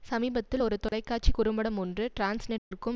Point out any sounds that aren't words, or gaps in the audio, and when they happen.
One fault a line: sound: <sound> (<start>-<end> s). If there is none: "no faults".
sound: dropout (0.9-0.9 s)
sound: dropout (2.6-2.7 s)